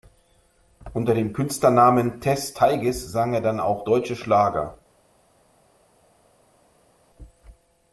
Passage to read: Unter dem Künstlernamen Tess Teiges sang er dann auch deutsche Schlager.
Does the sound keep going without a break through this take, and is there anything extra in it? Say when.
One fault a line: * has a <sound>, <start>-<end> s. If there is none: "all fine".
all fine